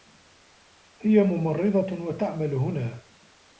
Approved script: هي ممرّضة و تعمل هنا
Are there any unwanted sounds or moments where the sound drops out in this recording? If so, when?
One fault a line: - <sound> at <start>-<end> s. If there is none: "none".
none